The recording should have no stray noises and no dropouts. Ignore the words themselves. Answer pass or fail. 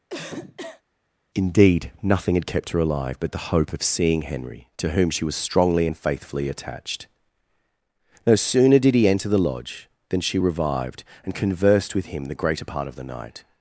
fail